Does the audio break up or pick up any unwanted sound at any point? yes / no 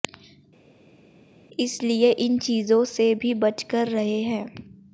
no